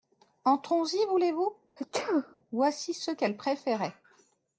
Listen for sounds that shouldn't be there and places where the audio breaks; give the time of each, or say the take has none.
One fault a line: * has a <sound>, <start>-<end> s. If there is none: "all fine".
* has a sneeze, 1.8-2.4 s